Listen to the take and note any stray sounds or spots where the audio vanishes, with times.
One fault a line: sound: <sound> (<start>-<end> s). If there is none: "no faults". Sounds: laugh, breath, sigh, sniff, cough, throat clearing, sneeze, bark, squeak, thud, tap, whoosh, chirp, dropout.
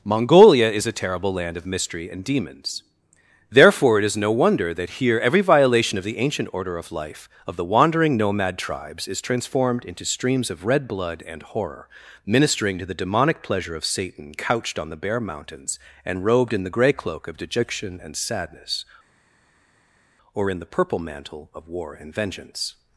no faults